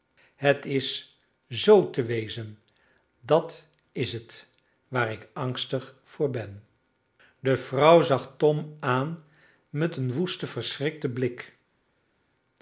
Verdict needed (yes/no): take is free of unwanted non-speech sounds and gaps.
yes